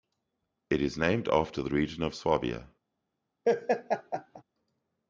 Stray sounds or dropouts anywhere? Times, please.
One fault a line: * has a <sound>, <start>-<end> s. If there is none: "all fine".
* has a laugh, 3.4-4.4 s